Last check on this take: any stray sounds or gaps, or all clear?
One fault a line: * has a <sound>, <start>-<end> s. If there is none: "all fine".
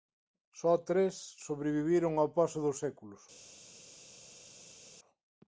all fine